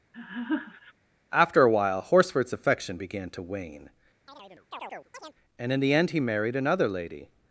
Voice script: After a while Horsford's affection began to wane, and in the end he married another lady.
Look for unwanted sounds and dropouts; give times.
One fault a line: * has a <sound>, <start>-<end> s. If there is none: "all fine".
* has a laugh, 0.1-0.9 s
* has a chirp, 4.3-5.3 s